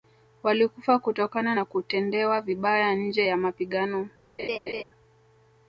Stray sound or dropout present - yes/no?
yes